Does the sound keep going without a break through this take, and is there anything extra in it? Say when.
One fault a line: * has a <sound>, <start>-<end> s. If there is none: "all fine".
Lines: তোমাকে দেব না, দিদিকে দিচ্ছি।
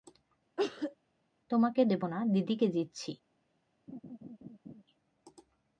* has a cough, 0.6-1.0 s
* has a laugh, 3.9-4.8 s